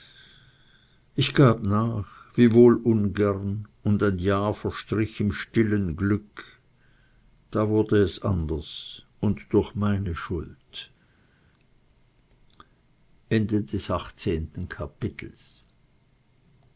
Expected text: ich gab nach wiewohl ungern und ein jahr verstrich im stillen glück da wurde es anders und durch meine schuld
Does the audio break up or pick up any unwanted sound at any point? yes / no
no